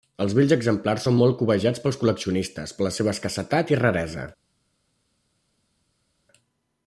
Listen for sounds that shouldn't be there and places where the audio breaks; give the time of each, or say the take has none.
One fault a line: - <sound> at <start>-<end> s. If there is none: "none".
none